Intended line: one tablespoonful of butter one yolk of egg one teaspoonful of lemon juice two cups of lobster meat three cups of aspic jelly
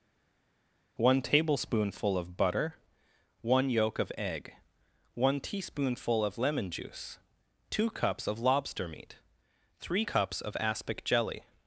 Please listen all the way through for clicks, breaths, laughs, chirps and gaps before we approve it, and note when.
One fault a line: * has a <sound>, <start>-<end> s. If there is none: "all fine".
all fine